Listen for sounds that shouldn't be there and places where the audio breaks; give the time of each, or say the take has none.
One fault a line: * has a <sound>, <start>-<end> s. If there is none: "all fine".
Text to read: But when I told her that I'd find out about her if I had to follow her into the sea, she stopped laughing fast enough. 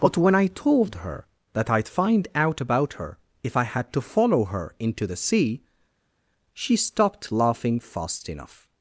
all fine